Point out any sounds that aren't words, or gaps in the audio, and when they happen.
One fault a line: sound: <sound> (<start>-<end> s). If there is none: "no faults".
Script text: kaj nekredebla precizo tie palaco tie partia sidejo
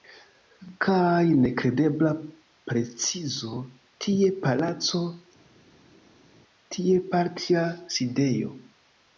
no faults